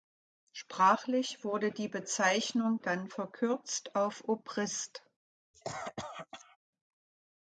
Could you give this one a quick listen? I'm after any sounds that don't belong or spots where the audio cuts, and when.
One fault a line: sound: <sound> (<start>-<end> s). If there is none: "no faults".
sound: cough (5.5-6.6 s)